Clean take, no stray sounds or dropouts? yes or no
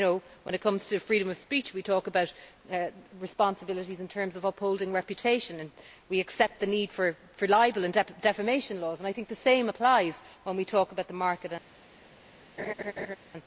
no